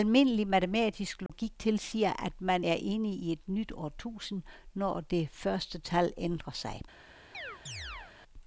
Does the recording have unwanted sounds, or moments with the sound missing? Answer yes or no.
yes